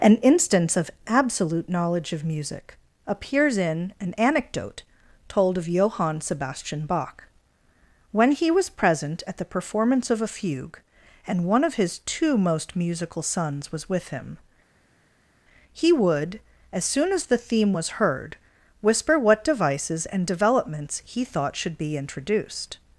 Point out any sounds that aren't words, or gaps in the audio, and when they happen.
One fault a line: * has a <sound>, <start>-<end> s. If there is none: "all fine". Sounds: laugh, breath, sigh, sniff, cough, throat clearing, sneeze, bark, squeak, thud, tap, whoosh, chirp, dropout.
all fine